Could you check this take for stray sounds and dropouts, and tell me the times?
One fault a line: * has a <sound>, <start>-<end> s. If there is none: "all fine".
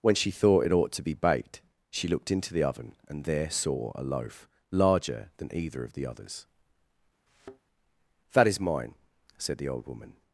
* has a thud, 7.3-7.6 s